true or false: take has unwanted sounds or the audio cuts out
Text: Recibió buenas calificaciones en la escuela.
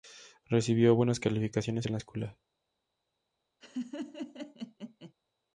true